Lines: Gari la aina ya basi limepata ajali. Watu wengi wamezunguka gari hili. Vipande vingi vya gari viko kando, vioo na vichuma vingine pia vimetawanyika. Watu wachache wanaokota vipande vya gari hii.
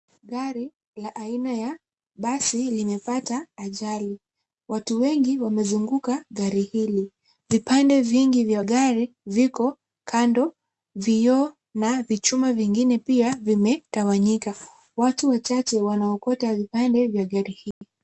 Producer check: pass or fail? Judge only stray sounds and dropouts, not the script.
fail